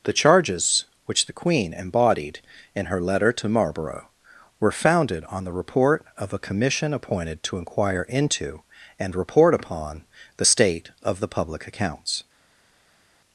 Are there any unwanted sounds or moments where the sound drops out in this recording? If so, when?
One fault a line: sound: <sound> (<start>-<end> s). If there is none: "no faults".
no faults